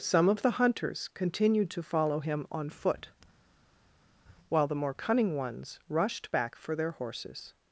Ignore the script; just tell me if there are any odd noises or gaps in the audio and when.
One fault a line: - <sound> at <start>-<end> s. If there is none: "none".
none